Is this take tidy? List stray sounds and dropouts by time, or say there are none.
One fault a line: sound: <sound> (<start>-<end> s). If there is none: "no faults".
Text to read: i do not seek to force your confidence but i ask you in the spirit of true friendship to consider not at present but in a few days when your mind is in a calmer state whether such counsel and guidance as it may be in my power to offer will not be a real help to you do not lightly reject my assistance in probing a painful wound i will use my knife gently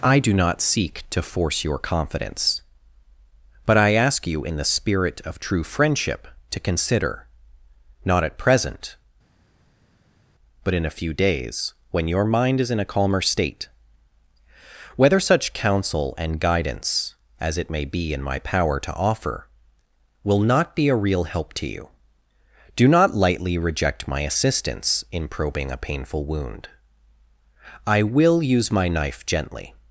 no faults